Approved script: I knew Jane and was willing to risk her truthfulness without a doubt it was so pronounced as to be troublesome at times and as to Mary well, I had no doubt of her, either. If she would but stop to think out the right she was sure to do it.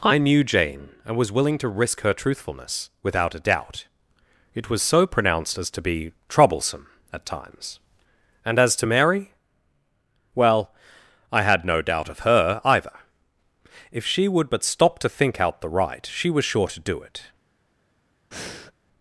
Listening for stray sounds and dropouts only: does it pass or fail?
fail